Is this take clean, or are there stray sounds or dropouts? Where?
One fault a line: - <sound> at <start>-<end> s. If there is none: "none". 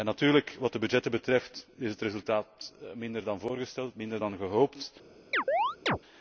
- chirp at 5.3-6.0 s